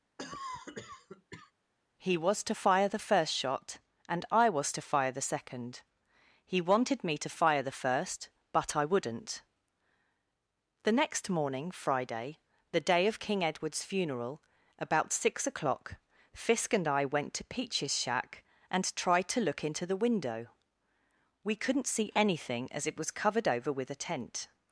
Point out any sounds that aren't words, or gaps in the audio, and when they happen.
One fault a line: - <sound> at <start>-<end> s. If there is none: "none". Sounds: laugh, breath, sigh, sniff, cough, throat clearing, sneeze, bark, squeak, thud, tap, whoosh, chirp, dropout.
- cough at 0.2-1.5 s